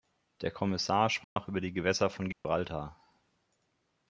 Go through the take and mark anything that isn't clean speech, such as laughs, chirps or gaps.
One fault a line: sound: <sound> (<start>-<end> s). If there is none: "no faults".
sound: dropout (1.2-1.4 s)
sound: dropout (2.3-2.4 s)